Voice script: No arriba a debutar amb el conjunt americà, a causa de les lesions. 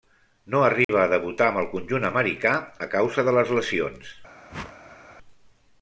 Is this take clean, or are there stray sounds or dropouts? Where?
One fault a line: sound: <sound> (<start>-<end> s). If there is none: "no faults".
sound: dropout (0.8-0.9 s)
sound: whoosh (4.5-5.2 s)